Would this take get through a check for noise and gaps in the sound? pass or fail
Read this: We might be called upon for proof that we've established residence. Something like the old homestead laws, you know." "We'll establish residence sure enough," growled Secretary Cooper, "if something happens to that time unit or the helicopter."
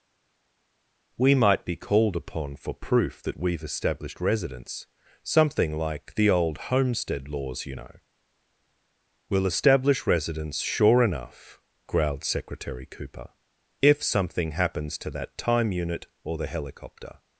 pass